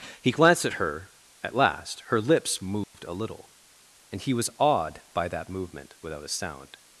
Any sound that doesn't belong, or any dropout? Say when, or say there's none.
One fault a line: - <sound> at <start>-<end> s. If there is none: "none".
- dropout at 2.8-2.9 s